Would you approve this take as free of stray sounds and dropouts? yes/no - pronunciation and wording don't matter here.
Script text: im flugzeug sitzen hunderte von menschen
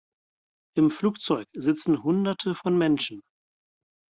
yes